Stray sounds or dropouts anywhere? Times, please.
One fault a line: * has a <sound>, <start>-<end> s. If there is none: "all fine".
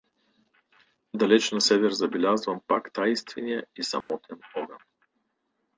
* has a dropout, 4.0-4.1 s